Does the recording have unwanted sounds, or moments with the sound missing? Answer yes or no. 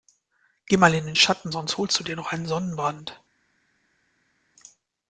no